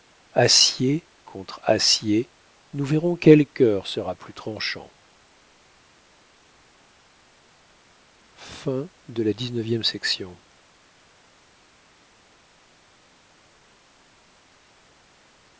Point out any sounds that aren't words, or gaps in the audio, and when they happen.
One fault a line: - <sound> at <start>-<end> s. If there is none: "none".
none